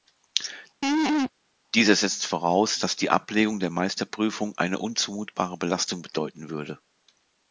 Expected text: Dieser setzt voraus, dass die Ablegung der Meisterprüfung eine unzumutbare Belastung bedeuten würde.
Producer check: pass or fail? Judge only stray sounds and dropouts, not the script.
fail